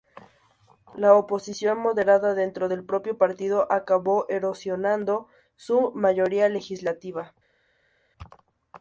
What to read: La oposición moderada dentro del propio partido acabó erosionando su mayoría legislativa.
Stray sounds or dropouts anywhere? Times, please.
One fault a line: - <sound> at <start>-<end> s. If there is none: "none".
none